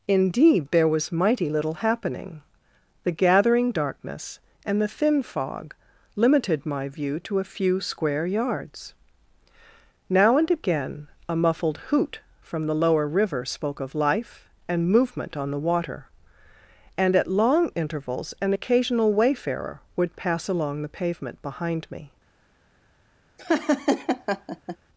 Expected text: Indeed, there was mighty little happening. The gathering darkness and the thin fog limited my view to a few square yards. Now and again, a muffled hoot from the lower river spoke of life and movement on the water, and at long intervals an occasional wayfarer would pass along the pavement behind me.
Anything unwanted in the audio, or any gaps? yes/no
yes